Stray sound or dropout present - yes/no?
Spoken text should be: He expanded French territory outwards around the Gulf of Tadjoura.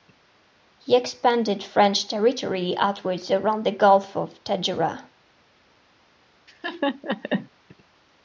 yes